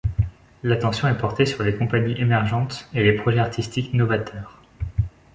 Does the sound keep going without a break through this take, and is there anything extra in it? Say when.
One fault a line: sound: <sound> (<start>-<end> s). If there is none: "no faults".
no faults